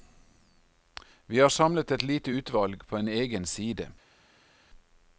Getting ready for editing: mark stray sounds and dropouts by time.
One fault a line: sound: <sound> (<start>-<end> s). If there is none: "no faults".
no faults